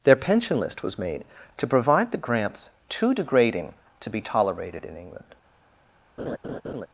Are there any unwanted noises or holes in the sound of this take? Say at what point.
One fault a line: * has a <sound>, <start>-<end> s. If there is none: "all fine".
* has a laugh, 6.2-6.9 s